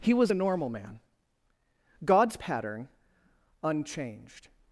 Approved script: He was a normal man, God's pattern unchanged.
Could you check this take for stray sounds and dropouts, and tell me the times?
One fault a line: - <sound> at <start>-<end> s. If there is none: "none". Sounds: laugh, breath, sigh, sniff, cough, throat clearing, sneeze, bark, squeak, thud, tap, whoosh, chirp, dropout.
none